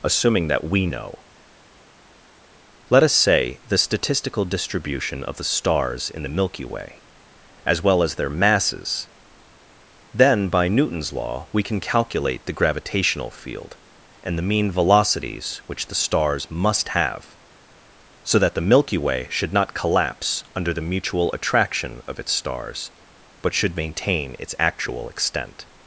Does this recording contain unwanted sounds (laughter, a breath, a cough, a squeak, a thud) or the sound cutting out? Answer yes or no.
no